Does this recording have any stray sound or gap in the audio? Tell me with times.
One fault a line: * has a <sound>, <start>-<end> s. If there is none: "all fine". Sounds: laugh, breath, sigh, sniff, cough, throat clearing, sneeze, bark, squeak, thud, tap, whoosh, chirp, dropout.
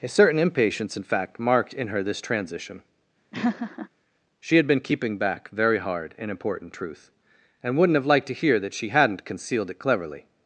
* has a laugh, 3.3-3.9 s